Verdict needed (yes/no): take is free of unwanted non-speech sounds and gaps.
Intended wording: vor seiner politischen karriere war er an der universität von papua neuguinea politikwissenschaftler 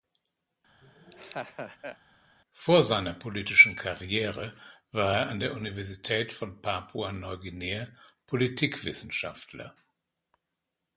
no